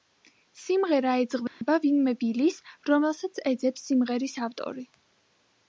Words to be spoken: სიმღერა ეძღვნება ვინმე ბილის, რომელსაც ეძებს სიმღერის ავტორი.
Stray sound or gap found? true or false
true